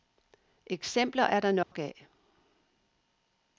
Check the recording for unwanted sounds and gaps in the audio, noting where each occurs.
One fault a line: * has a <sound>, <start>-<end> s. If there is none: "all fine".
* has a dropout, 1.6-1.7 s